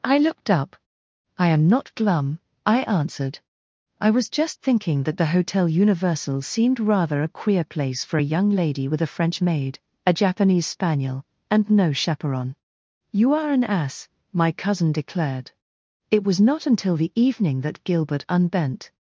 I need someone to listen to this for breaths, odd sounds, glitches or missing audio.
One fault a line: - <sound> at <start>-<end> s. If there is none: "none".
none